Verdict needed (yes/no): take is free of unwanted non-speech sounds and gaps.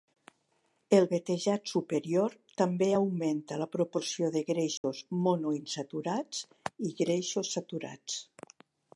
no